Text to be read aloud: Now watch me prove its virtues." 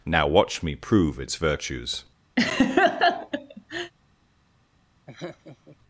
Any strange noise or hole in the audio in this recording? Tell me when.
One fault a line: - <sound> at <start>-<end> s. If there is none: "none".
- laugh at 2.4-3.9 s
- laugh at 5.1-5.8 s